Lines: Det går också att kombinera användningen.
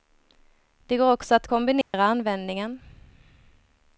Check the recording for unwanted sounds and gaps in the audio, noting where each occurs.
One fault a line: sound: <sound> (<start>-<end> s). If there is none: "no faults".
sound: dropout (1.8-1.9 s)